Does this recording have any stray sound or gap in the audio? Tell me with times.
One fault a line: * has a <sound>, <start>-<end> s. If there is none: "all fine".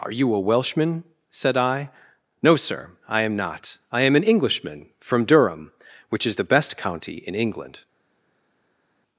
all fine